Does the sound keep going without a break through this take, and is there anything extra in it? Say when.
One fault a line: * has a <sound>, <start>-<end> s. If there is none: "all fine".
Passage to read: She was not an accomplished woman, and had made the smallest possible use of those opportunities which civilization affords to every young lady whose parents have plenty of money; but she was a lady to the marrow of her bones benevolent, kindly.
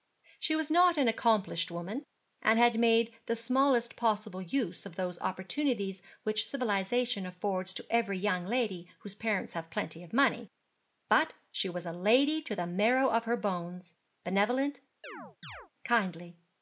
* has a chirp, 15.0-15.7 s